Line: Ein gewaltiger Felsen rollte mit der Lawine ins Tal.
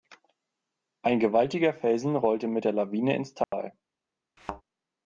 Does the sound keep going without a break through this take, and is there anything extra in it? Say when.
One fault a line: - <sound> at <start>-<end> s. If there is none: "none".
- dropout at 3.4-3.5 s
- thud at 4.4-4.6 s